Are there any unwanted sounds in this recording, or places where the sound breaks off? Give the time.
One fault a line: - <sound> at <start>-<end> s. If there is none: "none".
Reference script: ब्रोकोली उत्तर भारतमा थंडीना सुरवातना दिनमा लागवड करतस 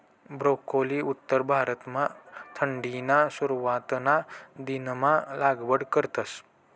none